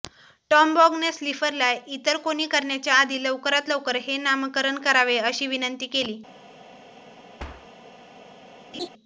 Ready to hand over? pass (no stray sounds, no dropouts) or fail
fail